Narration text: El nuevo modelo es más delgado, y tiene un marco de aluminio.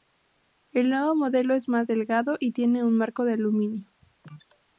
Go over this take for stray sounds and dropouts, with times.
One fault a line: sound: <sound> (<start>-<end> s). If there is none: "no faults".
no faults